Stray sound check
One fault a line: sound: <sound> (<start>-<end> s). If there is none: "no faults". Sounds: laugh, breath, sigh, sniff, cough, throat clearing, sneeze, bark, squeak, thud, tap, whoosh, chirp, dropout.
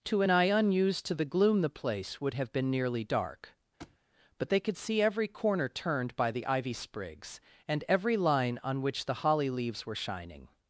sound: thud (3.8-4.0 s)